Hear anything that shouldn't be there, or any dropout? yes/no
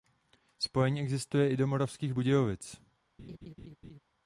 yes